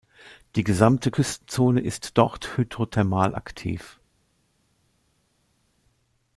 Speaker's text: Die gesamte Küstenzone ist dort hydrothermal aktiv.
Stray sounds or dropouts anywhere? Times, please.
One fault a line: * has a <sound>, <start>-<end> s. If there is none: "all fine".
all fine